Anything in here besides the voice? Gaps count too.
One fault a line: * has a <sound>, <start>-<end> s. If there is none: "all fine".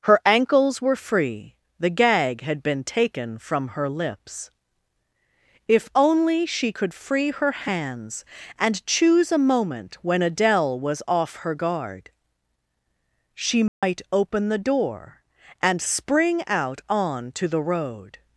* has a dropout, 13.7-13.8 s